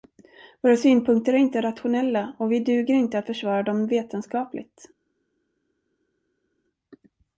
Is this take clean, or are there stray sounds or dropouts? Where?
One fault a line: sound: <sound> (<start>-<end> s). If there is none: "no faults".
no faults